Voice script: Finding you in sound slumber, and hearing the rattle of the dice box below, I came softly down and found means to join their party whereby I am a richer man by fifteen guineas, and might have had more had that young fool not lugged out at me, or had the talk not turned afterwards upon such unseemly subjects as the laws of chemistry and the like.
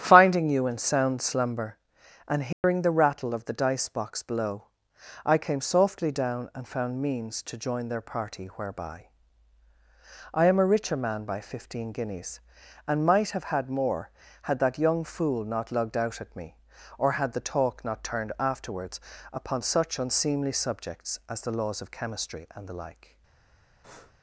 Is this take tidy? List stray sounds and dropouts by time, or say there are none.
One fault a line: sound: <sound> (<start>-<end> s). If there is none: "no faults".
sound: dropout (2.5-2.6 s)
sound: breath (23.8-24.1 s)